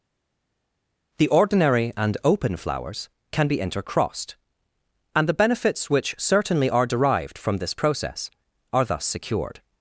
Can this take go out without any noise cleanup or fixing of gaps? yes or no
yes